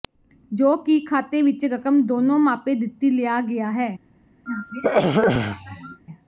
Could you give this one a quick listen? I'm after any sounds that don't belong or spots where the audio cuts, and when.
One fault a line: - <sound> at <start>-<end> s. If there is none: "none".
- throat clearing at 4.5-6.0 s